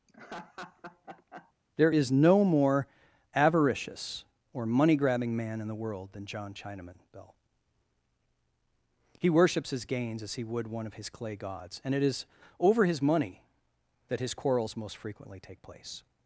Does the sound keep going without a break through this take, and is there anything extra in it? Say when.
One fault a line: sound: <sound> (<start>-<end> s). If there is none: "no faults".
sound: laugh (0.1-1.5 s)